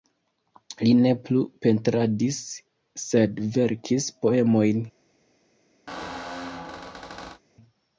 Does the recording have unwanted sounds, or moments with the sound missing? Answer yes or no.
yes